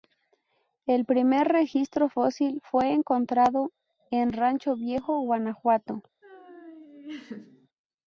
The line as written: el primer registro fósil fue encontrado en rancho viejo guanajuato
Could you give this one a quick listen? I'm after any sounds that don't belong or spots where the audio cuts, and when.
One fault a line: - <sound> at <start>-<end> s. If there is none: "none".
- laugh at 6.2-7.7 s